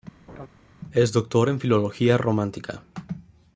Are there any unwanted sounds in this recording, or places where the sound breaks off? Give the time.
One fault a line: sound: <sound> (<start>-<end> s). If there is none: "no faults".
sound: laugh (0.3-0.5 s)